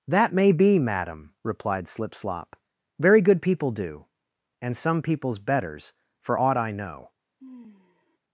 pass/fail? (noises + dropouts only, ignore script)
fail